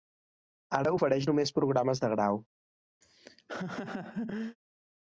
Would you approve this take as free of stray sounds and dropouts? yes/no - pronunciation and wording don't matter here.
no